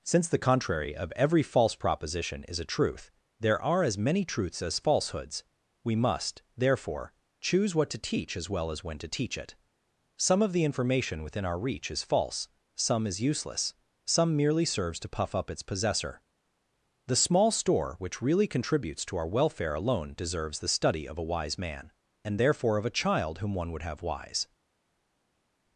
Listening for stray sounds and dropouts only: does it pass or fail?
pass